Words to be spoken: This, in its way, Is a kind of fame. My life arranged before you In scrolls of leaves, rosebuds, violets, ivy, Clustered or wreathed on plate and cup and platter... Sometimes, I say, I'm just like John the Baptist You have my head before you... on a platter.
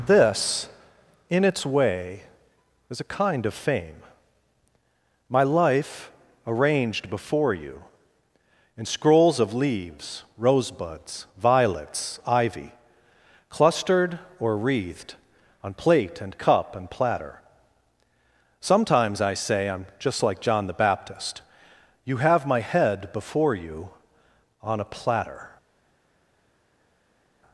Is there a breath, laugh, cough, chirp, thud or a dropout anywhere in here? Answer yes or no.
no